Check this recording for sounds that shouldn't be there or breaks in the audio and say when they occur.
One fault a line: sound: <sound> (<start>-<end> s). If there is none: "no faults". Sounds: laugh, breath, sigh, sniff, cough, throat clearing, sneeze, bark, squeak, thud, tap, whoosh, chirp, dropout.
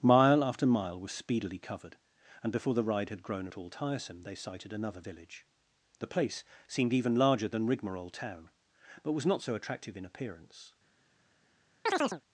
sound: chirp (11.9-12.2 s)